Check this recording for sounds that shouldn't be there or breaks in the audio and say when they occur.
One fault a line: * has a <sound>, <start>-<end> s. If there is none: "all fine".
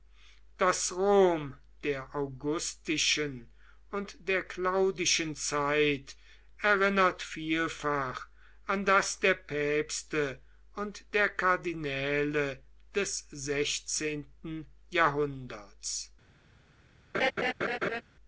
* has a laugh, 17.1-18.0 s